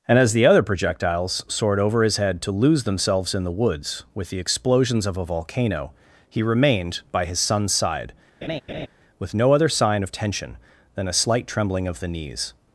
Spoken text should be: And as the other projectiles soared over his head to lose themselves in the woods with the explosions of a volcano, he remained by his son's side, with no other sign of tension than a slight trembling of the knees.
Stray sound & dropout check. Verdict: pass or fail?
fail